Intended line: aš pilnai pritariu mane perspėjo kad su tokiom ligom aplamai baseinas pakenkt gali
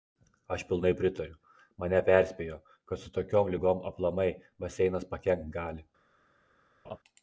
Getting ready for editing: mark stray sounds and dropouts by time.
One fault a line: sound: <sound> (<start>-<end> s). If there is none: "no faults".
sound: laugh (6.8-7.0 s)